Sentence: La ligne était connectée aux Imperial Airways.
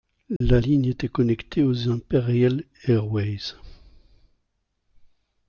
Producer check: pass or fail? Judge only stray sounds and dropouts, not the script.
fail